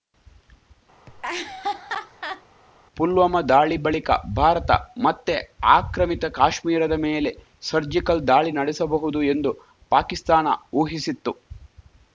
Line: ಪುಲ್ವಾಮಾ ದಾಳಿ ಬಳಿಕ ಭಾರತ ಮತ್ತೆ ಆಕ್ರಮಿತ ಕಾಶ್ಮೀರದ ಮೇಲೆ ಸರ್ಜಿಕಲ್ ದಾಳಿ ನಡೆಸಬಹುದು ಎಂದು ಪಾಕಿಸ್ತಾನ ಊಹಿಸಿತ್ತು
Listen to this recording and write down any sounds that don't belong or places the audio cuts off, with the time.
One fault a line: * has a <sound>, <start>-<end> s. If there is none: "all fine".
* has a laugh, 1.1-2.4 s